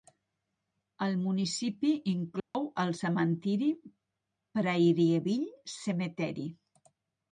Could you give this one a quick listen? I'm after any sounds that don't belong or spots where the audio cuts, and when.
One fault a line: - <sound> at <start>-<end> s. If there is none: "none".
- dropout at 2.4-2.5 s